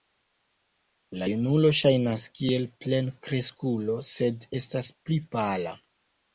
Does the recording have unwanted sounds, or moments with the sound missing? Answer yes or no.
no